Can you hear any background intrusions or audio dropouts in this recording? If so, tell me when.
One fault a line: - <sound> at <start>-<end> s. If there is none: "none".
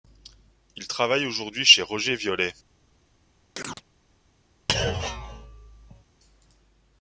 - chirp at 3.5-3.8 s
- thud at 4.7-6.0 s